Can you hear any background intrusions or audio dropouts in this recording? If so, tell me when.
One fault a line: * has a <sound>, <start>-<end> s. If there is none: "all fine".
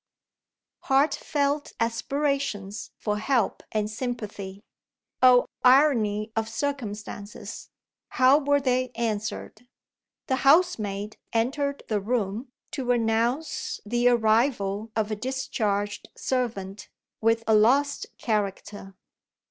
all fine